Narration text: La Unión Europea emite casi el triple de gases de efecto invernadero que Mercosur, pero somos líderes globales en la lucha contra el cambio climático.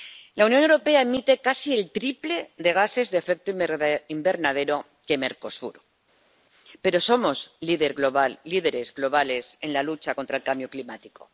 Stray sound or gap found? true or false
false